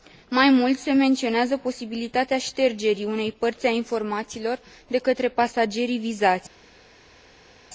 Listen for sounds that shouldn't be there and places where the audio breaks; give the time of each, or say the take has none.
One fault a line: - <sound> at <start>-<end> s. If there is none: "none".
none